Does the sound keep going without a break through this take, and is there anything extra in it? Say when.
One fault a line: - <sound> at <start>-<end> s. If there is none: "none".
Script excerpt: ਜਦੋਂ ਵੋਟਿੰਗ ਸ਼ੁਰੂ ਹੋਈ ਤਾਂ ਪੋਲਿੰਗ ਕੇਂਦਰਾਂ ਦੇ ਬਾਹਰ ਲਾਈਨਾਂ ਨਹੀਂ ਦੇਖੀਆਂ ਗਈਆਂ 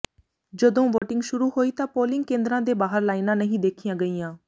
- dropout at 1.0-1.0 s